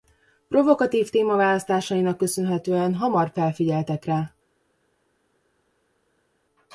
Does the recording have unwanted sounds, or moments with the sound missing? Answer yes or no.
no